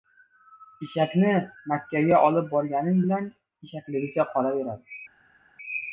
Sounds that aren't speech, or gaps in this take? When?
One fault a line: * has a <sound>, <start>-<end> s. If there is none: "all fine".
all fine